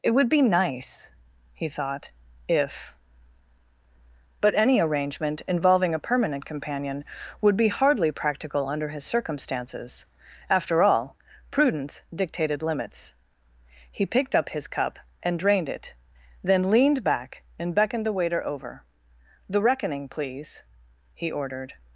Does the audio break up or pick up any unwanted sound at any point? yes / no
no